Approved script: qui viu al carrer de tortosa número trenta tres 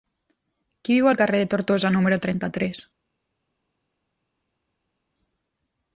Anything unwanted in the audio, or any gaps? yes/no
no